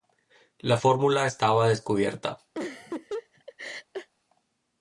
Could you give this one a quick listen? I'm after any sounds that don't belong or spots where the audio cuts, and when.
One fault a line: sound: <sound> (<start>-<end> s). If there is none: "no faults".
sound: laugh (2.5-4.1 s)